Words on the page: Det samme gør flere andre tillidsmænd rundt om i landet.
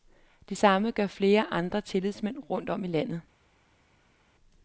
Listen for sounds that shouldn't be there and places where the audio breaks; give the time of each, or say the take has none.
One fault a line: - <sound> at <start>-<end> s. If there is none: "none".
none